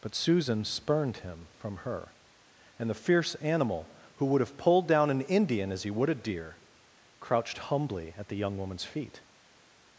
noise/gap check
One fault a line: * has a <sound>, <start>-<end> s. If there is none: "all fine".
all fine